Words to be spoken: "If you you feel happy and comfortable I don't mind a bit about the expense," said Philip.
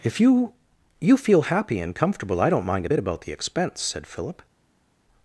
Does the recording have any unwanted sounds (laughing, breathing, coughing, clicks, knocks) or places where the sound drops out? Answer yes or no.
no